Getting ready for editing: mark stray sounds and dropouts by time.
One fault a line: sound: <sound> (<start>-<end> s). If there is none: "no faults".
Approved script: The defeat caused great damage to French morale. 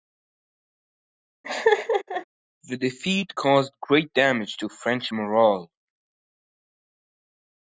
sound: laugh (1.4-2.3 s)